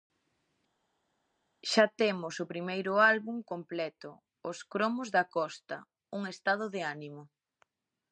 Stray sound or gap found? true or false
false